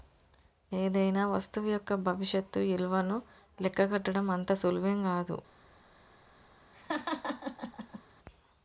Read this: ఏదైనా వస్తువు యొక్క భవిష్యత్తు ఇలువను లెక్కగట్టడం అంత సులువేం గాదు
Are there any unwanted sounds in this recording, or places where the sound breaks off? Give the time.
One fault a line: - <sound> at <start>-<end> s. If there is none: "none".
- laugh at 6.7-8.0 s